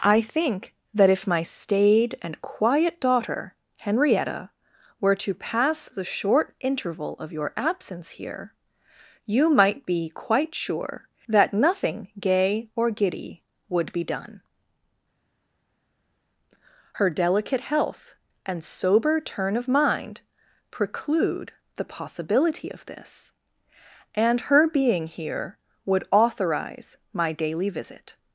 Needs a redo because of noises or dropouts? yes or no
no